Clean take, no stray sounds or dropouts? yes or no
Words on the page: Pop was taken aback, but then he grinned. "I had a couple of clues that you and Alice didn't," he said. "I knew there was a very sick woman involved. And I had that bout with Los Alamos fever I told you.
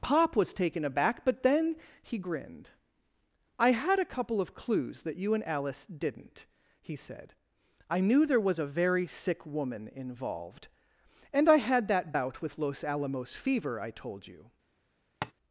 no